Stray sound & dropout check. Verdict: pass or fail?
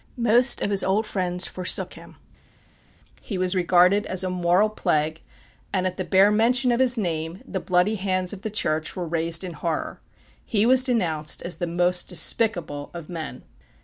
pass